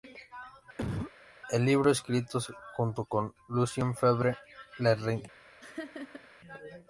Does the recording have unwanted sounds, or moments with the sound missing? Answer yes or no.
yes